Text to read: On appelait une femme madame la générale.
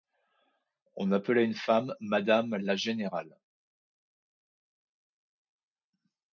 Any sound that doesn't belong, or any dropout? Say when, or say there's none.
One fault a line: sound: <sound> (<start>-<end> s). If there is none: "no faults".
no faults